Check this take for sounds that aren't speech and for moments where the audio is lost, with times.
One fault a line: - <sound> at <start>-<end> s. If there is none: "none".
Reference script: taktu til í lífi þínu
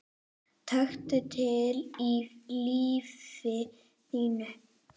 none